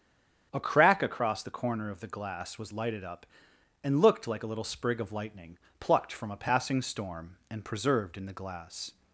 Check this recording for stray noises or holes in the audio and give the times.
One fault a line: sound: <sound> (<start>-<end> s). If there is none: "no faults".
no faults